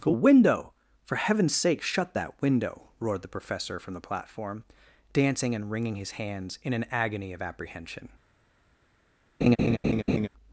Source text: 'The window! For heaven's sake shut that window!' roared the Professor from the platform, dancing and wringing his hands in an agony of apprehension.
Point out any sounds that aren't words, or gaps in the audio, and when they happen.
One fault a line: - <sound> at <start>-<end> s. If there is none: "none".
- laugh at 9.4-10.3 s